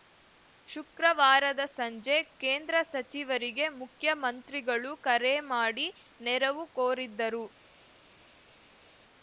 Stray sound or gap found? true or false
false